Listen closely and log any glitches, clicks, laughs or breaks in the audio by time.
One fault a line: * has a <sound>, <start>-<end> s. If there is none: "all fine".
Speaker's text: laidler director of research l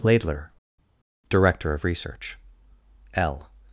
all fine